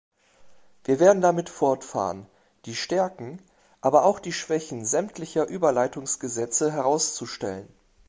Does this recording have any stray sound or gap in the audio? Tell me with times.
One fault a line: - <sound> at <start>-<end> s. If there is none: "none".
none